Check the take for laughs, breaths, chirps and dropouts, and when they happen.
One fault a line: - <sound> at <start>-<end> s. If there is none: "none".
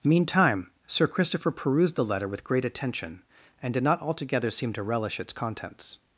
none